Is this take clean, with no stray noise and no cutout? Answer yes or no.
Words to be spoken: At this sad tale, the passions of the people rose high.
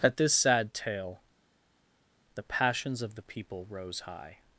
yes